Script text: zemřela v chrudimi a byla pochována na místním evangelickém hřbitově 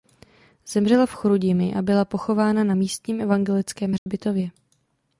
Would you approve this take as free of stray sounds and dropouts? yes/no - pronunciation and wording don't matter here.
no